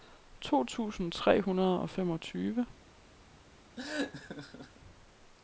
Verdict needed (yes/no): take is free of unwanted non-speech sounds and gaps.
no